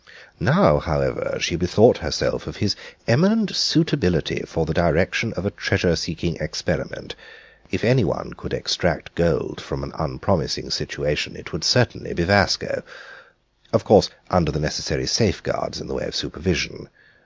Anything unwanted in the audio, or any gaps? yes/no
no